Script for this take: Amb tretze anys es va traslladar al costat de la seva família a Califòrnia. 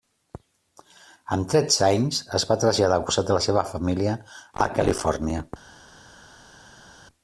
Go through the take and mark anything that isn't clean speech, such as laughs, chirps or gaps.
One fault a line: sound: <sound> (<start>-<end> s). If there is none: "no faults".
no faults